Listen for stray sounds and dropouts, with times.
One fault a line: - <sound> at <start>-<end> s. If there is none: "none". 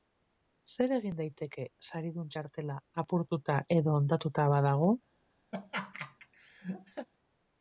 - laugh at 5.5-7.1 s